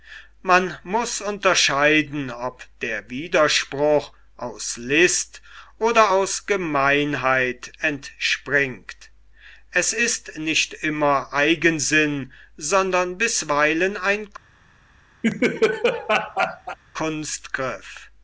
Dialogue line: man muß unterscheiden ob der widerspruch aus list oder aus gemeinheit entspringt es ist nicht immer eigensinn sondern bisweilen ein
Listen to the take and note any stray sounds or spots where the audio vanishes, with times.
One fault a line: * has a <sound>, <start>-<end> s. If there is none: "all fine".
* has a laugh, 15.2-16.8 s